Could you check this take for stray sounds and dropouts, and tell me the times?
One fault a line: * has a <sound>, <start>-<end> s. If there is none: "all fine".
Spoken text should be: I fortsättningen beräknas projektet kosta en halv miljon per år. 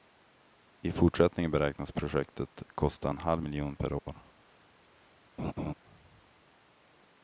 * has a dropout, 4.0-4.1 s
* has a laugh, 5.4-5.7 s